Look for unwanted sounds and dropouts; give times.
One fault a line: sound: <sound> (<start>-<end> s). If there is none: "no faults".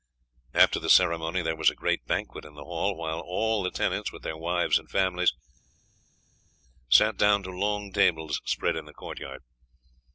no faults